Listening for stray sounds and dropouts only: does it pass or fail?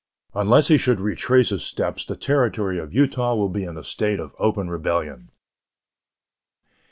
pass